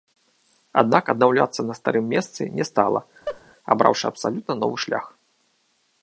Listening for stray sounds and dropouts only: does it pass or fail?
fail